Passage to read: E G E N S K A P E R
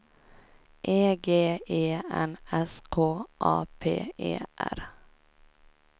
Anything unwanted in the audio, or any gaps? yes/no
no